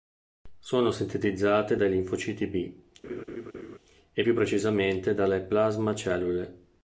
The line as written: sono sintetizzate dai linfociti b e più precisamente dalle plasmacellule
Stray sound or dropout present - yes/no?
yes